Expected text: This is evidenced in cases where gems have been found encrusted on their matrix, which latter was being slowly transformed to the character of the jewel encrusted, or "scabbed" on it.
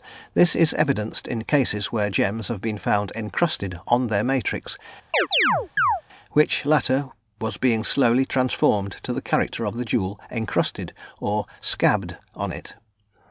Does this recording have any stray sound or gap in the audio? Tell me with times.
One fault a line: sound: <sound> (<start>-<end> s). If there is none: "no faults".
sound: chirp (5.1-6.0 s)